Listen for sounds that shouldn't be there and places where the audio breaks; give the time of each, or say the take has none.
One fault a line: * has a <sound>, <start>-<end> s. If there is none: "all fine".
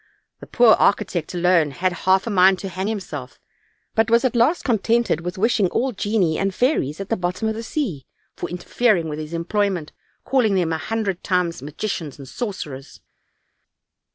all fine